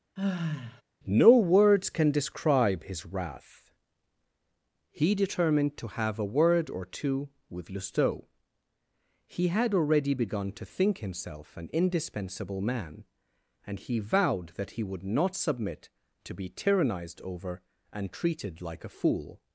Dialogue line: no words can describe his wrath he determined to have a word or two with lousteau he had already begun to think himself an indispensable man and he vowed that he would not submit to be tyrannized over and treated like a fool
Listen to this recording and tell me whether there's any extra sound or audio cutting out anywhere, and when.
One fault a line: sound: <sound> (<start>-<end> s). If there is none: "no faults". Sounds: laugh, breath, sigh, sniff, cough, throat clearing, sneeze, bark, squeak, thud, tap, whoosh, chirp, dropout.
sound: sigh (0.2-0.8 s)